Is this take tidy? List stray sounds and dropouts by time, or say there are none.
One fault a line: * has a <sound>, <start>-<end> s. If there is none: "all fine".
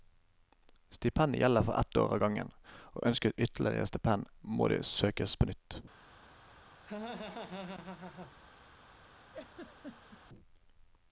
* has a laugh, 6.9-8.3 s
* has a laugh, 9.3-10.2 s